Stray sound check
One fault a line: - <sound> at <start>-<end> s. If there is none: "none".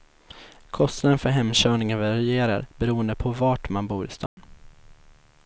- dropout at 4.3-4.4 s